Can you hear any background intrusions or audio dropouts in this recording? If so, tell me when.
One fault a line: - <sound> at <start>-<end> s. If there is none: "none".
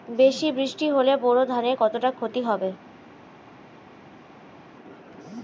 none